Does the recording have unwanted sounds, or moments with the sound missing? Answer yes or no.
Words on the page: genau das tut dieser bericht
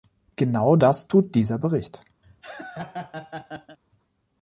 yes